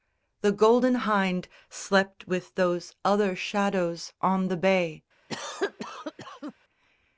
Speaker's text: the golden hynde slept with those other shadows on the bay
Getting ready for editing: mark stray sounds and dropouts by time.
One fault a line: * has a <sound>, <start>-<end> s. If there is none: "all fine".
* has a cough, 5.3-6.5 s